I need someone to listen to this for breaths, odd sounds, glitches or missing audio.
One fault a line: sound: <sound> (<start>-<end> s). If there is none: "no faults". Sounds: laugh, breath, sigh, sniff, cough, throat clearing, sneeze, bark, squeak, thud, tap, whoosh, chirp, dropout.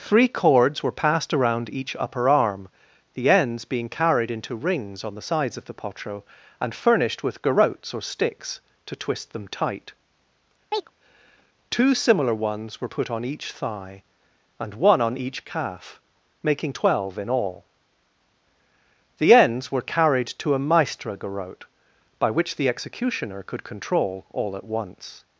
sound: chirp (10.7-10.9 s)